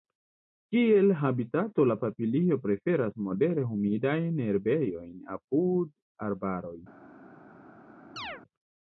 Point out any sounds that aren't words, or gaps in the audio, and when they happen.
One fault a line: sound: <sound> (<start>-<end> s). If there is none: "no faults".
sound: chirp (8.2-8.4 s)